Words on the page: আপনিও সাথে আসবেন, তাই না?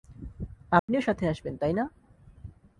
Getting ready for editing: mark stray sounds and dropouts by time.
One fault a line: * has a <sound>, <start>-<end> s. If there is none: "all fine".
* has a dropout, 0.8-0.9 s